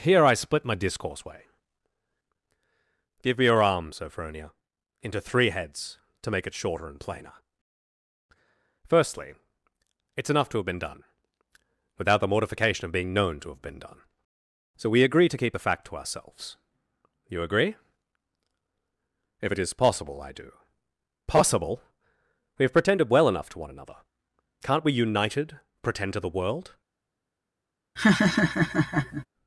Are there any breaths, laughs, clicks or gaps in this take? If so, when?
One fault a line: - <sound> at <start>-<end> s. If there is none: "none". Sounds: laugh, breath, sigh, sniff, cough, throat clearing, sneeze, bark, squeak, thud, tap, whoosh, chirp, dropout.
- laugh at 28.0-29.3 s